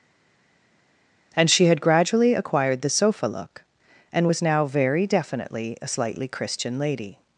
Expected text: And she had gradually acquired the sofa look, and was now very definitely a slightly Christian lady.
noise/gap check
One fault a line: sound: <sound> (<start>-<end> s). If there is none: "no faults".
no faults